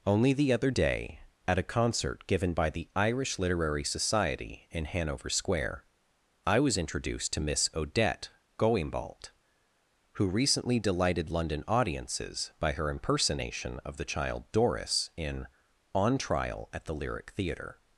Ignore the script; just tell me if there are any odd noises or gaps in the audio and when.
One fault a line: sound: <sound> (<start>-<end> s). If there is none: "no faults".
no faults